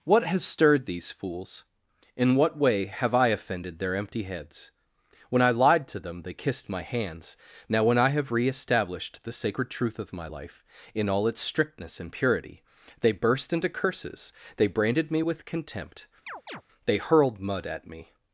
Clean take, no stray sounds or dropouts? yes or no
no